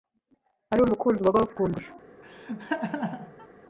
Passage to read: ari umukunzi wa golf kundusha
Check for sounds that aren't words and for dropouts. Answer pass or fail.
fail